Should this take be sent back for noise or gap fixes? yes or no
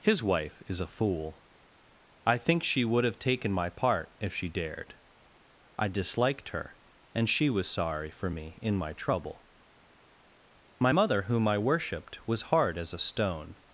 no